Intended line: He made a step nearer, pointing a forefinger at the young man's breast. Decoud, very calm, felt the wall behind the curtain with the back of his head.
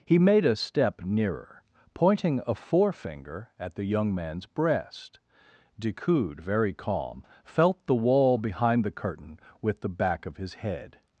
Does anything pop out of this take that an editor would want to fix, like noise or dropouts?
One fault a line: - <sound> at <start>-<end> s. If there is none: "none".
none